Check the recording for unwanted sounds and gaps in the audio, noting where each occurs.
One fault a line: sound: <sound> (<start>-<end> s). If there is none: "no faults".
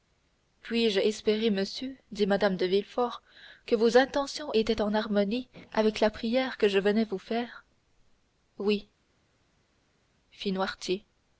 no faults